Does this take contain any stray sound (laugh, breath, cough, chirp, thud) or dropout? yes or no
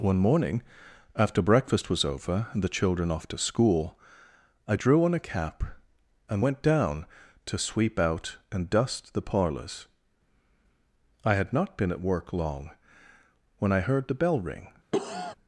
yes